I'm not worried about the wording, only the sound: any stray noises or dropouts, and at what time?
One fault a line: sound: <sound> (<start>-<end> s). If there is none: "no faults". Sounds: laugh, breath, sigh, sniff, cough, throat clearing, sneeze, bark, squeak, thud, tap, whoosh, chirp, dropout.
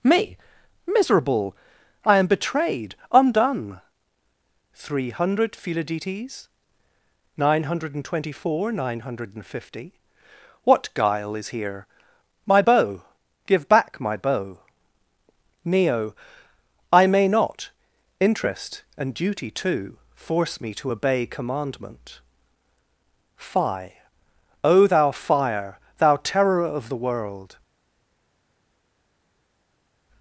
no faults